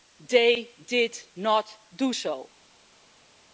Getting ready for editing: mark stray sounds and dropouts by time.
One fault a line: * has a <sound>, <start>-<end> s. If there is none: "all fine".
all fine